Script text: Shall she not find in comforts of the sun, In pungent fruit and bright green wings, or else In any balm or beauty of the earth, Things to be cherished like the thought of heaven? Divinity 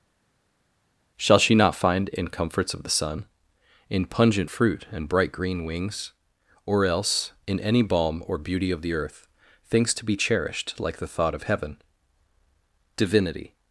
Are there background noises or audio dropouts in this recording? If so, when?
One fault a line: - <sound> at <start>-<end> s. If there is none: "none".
none